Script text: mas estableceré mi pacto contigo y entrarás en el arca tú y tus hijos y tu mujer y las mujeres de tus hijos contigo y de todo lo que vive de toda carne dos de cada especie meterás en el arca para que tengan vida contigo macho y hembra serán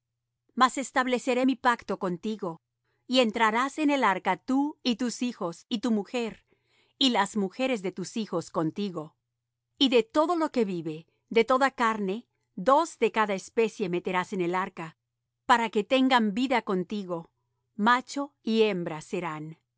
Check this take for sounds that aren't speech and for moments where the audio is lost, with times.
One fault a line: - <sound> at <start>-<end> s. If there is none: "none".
none